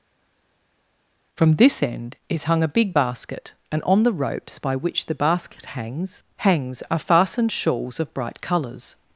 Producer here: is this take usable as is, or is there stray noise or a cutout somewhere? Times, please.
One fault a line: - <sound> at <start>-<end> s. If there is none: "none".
none